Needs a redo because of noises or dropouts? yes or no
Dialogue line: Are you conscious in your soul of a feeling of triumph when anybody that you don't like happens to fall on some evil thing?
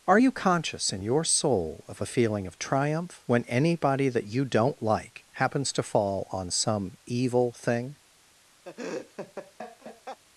yes